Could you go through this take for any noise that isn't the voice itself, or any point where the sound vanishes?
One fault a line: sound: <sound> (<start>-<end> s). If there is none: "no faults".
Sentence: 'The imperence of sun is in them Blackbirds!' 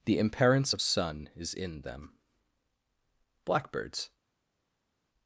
no faults